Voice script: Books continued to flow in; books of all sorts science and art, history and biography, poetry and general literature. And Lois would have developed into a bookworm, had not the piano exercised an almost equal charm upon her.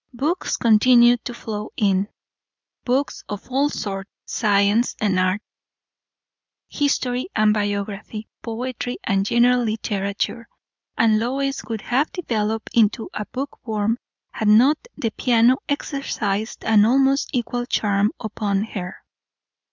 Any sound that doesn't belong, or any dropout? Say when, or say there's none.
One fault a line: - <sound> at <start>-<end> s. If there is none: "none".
none